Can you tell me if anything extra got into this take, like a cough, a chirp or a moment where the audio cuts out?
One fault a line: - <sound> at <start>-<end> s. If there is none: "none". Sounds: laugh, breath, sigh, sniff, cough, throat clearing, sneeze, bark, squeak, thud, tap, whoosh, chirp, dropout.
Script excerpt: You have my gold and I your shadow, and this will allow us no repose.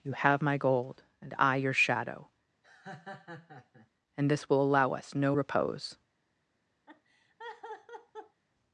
- laugh at 2.6-3.9 s
- laugh at 6.9-8.4 s